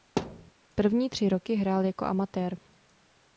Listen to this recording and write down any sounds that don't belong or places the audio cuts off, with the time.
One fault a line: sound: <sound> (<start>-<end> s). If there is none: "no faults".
sound: thud (0.2-0.5 s)